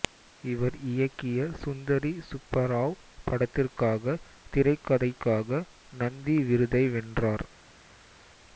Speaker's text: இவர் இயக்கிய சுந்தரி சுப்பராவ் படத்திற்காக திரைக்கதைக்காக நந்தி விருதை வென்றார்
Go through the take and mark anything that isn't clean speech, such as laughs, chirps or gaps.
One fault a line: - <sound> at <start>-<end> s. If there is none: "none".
none